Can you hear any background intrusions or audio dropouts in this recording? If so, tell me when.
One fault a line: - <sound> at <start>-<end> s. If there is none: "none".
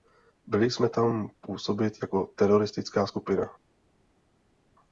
none